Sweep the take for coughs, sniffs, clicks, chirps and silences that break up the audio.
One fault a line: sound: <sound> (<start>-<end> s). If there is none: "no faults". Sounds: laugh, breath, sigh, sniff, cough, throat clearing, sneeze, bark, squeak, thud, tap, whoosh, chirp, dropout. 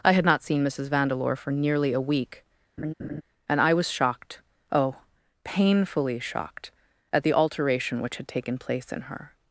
sound: laugh (2.8-3.2 s)